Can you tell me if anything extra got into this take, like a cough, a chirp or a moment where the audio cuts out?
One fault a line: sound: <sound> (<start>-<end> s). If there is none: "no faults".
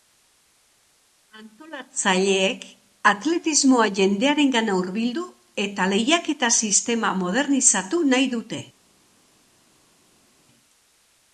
no faults